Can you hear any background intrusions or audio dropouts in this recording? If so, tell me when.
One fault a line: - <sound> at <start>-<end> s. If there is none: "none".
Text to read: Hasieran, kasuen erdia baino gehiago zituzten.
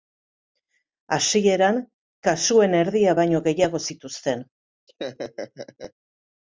- laugh at 4.9-5.9 s